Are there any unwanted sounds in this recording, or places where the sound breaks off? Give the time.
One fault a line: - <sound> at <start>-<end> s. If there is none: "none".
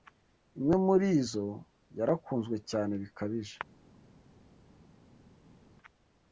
none